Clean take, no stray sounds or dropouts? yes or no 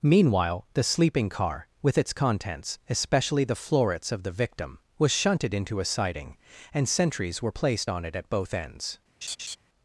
no